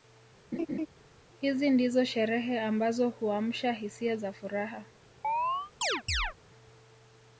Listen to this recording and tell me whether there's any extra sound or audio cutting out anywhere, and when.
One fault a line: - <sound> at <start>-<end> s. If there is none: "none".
- laugh at 0.5-0.9 s
- chirp at 5.2-6.3 s